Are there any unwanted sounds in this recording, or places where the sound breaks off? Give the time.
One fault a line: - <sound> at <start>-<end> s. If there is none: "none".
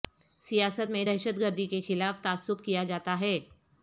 none